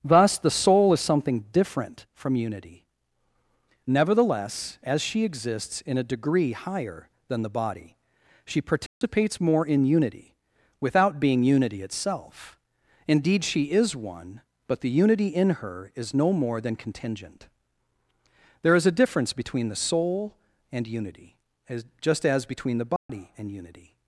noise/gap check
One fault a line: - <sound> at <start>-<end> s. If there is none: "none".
- dropout at 8.9-9.0 s
- dropout at 23.0-23.1 s